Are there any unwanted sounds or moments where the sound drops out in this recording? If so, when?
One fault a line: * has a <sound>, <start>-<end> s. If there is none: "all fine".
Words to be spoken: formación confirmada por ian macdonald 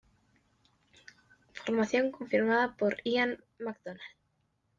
all fine